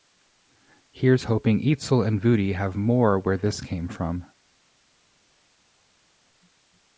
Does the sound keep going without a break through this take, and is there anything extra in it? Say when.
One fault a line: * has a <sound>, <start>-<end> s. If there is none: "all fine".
all fine